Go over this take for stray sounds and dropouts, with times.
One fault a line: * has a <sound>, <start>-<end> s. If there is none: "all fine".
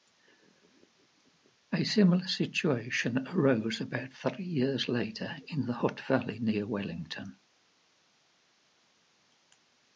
all fine